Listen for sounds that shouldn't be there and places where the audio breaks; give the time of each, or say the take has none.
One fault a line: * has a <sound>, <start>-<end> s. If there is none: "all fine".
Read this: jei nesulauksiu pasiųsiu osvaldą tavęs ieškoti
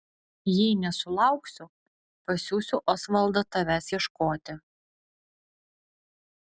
all fine